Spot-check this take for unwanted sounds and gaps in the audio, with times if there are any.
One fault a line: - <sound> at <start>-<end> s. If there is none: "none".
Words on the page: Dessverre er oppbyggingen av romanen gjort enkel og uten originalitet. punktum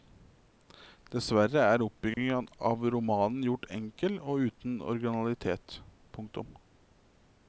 - dropout at 2.1-2.2 s